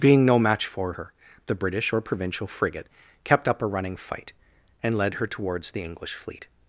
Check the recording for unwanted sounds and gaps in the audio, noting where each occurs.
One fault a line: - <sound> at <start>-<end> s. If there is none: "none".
none